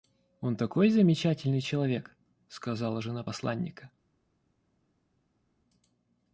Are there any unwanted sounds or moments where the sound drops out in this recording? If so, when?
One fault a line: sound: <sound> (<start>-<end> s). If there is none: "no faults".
no faults